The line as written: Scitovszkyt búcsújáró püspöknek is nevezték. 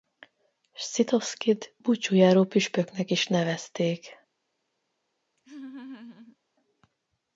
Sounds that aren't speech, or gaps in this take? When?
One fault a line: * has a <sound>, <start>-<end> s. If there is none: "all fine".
* has a laugh, 5.4-6.4 s